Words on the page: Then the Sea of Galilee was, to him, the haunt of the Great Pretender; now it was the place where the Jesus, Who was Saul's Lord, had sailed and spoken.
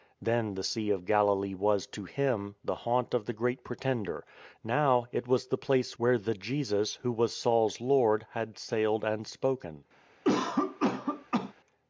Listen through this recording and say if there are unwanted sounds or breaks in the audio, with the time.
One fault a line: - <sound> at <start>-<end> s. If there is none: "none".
- cough at 10.2-11.5 s